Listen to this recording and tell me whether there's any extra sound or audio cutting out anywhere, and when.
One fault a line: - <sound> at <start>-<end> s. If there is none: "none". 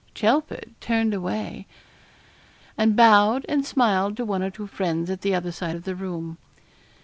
none